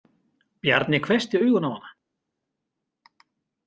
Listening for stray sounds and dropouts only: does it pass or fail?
pass